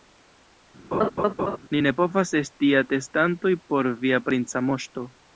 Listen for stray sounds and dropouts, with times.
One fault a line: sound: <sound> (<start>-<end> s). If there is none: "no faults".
sound: laugh (0.9-1.6 s)